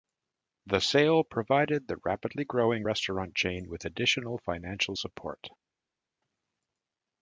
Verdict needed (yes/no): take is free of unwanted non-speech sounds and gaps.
yes